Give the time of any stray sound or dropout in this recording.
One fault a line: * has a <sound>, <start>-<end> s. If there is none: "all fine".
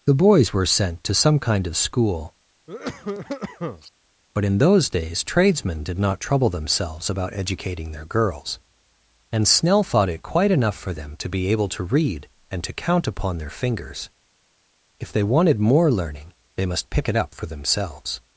* has a cough, 2.7-3.9 s